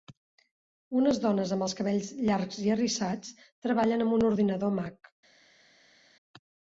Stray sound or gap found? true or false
false